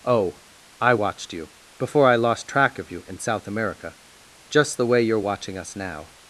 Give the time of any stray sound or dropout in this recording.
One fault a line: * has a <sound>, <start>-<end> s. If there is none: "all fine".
all fine